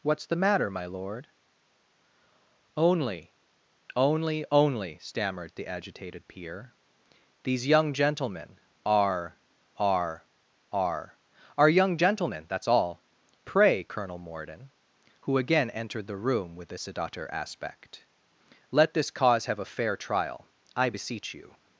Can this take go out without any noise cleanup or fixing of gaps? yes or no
yes